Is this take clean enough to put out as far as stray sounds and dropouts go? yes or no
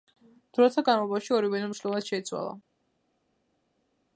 yes